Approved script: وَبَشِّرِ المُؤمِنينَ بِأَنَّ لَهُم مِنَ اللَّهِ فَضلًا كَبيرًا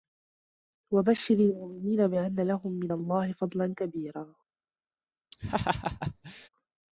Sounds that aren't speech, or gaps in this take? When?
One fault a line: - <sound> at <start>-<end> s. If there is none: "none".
- laugh at 5.3-6.5 s